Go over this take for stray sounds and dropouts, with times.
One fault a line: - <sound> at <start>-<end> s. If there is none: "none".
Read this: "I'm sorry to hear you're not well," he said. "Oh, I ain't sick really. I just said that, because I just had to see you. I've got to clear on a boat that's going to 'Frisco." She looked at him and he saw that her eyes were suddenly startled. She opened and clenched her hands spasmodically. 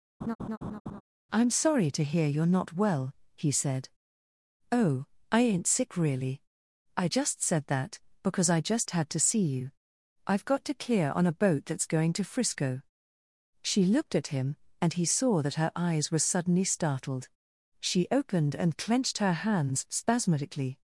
- laugh at 0.2-1.0 s